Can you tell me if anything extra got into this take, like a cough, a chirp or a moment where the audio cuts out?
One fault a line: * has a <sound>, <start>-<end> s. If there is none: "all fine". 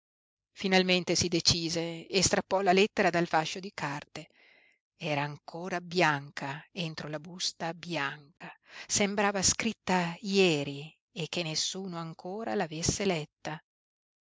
* has a dropout, 8.4-8.4 s